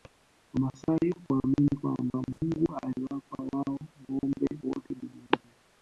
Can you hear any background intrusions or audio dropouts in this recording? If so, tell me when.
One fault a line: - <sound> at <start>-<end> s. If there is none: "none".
- dropout at 2.3-2.4 s